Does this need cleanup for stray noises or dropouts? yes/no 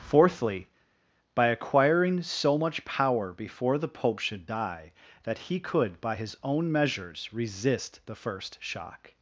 no